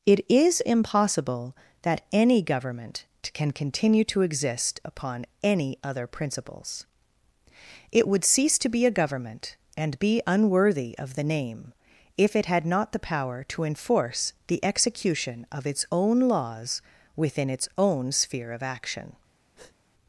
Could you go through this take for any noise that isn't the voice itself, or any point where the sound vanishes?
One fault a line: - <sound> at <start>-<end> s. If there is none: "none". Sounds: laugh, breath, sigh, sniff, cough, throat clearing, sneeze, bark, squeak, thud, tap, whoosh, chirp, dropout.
- breath at 19.5-19.8 s